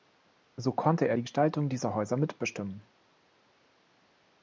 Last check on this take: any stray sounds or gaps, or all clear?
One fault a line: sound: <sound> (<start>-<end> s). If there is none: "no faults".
no faults